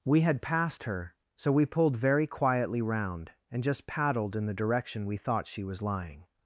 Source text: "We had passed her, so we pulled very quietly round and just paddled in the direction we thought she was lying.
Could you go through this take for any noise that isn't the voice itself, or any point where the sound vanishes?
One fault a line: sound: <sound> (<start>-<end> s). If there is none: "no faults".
no faults